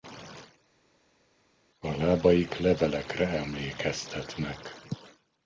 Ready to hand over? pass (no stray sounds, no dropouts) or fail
pass